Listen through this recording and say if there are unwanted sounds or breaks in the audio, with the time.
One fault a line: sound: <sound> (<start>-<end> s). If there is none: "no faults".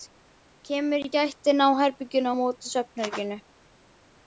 no faults